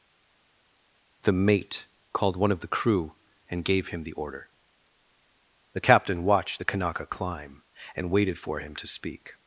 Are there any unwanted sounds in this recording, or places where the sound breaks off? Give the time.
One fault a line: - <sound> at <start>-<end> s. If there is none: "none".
none